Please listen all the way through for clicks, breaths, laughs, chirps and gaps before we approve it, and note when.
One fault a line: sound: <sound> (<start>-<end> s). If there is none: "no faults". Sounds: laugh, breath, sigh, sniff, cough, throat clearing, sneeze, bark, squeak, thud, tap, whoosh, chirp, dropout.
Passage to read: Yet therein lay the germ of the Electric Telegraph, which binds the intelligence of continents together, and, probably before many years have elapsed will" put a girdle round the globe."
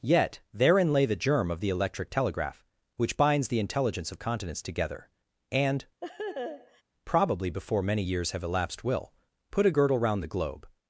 sound: laugh (6.0-6.8 s)